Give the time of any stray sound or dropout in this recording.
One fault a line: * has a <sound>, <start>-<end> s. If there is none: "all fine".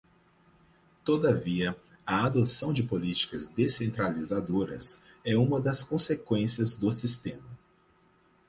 all fine